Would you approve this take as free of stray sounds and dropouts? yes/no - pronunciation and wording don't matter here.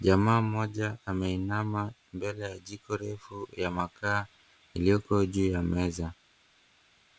yes